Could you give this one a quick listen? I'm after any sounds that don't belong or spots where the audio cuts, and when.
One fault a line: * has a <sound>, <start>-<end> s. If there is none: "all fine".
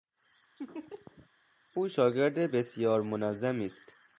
* has a laugh, 0.6-1.3 s